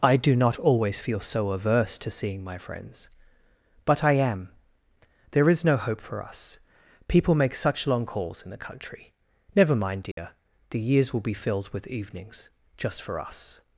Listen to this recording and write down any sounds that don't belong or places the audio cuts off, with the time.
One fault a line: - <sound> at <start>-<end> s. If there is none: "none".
- dropout at 10.1-10.2 s